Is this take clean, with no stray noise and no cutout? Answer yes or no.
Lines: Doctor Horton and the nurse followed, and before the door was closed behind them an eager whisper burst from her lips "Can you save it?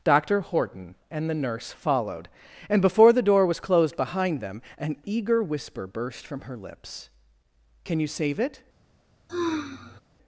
no